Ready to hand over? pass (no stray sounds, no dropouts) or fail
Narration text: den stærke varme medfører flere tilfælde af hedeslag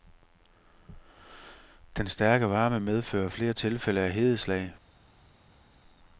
pass